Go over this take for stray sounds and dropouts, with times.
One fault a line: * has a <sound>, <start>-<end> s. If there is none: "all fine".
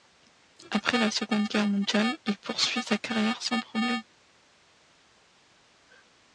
all fine